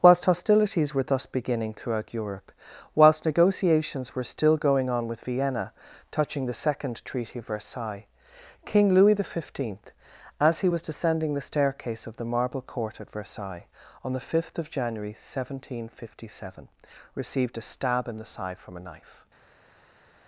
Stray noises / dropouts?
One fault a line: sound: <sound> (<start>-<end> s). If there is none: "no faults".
no faults